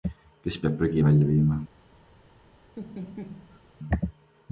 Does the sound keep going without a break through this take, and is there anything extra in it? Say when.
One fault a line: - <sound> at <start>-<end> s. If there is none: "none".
- laugh at 2.8-3.6 s